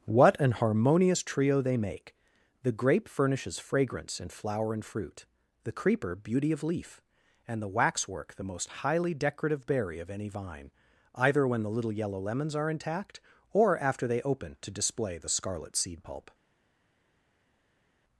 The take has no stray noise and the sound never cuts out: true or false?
true